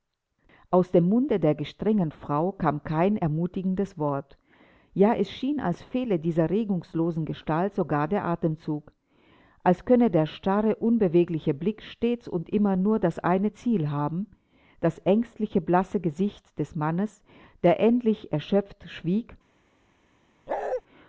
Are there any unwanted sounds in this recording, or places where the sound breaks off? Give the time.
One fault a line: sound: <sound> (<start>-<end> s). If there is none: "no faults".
sound: bark (20.5-20.8 s)